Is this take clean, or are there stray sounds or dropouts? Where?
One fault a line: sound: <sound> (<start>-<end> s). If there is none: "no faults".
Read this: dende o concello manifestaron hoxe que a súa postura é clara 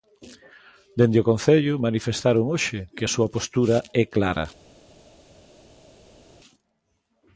no faults